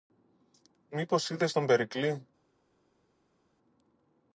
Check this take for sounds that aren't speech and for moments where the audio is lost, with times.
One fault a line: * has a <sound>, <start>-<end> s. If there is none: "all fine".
all fine